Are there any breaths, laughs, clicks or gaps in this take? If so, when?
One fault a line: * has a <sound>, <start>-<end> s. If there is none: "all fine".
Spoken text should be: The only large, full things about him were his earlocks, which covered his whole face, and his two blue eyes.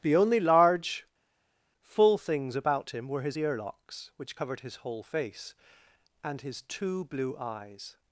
all fine